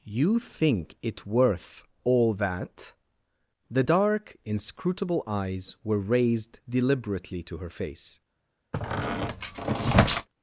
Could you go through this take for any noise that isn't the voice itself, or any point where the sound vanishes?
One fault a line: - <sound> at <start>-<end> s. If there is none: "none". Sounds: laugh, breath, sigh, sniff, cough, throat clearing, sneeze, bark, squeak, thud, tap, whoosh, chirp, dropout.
- squeak at 8.7-10.3 s